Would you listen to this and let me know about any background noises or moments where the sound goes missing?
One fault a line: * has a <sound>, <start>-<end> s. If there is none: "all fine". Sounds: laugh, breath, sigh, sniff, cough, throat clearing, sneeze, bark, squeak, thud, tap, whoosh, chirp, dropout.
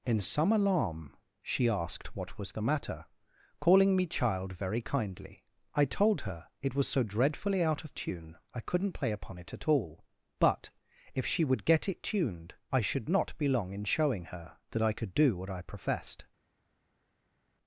all fine